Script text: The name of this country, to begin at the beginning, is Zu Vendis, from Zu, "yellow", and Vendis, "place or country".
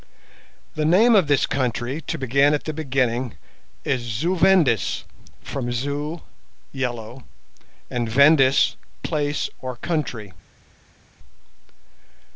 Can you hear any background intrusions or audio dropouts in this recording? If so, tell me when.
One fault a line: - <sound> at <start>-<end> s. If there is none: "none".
none